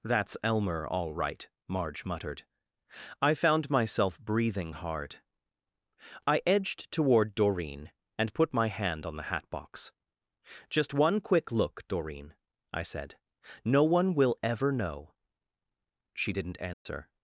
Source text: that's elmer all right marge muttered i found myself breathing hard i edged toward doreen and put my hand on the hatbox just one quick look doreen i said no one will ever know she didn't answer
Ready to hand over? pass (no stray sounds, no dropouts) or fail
fail